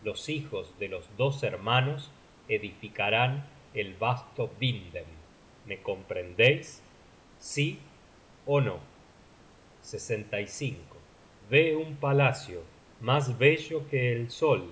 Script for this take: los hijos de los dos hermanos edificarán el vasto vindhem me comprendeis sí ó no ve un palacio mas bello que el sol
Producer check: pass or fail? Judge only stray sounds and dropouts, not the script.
pass